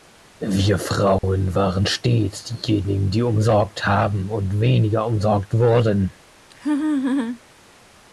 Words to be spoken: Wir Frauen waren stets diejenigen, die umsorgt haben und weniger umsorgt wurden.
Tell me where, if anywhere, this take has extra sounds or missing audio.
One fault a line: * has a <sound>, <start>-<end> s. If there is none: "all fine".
* has a dropout, 1.2-1.2 s
* has a laugh, 6.5-7.4 s